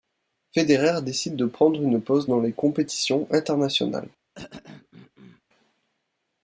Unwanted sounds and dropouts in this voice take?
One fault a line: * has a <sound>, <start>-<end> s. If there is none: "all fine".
* has a throat clearing, 4.3-5.4 s